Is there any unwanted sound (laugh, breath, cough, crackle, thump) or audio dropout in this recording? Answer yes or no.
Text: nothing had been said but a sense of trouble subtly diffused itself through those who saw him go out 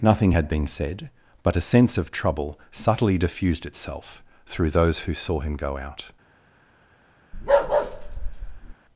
yes